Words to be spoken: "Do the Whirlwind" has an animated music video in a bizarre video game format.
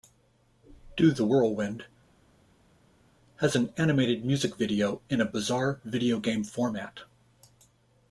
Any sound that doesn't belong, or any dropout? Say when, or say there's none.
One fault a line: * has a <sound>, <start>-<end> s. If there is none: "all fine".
all fine